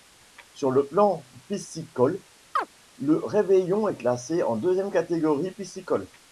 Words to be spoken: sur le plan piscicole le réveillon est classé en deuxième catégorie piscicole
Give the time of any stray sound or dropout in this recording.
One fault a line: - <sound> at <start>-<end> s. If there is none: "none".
- chirp at 2.6-2.7 s